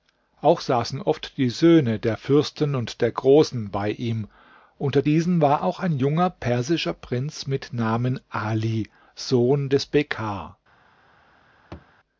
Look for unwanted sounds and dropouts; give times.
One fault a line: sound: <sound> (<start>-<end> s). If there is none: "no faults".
sound: thud (11.7-11.9 s)